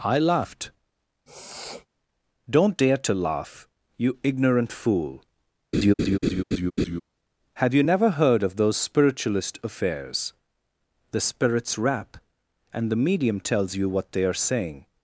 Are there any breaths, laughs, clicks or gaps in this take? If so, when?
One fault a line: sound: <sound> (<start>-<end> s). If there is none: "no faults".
sound: sniff (1.3-1.9 s)
sound: laugh (5.7-7.0 s)